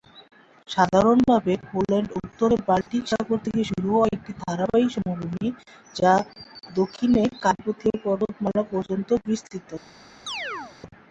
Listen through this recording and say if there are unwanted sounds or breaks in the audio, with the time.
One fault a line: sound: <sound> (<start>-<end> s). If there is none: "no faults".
sound: dropout (2.8-2.9 s)
sound: chirp (10.3-10.8 s)